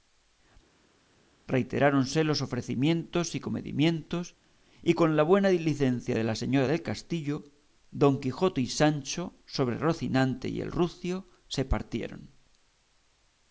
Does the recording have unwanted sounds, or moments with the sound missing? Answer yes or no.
no